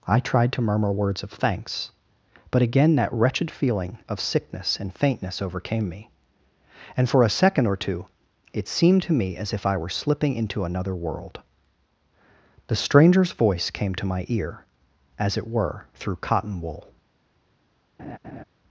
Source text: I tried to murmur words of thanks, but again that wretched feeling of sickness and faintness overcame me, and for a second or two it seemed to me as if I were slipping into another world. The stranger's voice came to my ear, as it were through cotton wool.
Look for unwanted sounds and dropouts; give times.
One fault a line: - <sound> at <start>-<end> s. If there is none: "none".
- laugh at 18.0-18.4 s